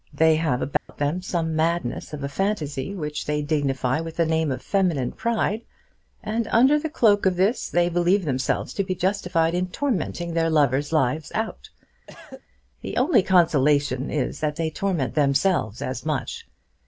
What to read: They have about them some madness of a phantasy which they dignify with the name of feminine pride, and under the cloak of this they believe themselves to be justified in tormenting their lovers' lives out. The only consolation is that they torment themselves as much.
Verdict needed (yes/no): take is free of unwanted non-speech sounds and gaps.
no